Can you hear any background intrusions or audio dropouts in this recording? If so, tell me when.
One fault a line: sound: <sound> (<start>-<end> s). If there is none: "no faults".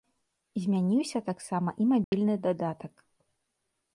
sound: dropout (2.0-2.1 s)